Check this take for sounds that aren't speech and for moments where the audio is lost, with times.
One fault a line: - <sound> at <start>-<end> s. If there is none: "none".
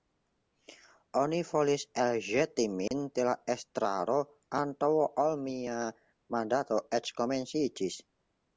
- dropout at 2.9-2.9 s